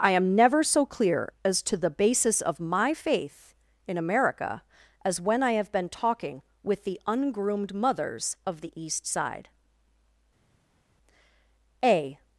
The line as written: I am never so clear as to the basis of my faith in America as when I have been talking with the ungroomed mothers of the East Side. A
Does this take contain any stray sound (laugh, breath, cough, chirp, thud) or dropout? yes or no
no